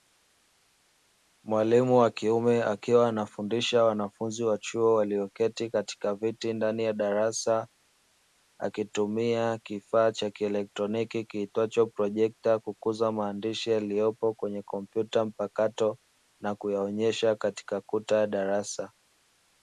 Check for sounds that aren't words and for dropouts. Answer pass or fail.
pass